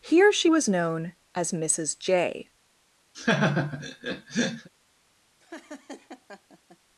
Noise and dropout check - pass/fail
fail